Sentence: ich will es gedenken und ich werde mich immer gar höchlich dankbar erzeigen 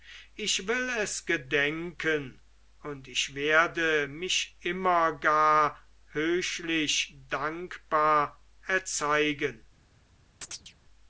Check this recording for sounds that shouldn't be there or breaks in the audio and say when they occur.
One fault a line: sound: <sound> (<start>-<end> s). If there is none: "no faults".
sound: chirp (10.4-10.7 s)